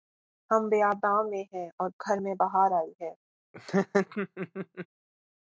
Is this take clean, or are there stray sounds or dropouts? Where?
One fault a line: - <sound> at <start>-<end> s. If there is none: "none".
- laugh at 3.5-4.9 s